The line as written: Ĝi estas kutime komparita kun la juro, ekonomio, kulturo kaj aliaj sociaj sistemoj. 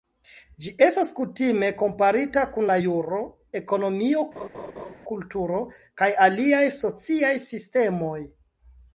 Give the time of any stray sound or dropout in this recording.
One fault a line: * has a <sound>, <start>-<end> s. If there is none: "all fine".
* has a laugh, 4.4-4.9 s